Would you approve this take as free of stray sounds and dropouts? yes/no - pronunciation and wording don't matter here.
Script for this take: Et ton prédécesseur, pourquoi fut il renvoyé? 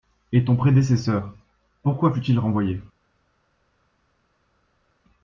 yes